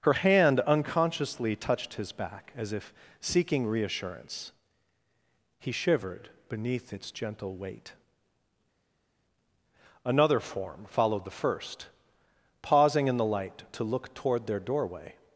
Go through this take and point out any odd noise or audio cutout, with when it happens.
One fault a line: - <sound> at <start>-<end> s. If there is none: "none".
none